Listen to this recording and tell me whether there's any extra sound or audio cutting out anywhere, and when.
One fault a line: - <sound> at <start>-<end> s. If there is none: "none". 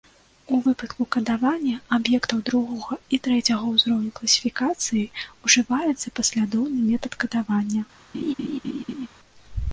- laugh at 8.1-9.1 s